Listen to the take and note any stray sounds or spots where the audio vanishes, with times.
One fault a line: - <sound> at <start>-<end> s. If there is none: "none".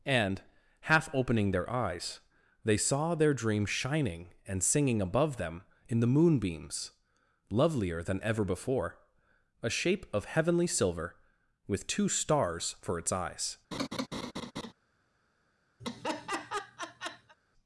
- laugh at 13.7-14.7 s
- laugh at 15.8-17.3 s